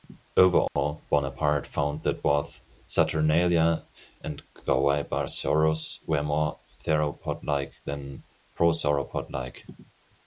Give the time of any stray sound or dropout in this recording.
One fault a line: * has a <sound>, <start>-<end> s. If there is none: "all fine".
* has a dropout, 0.7-0.8 s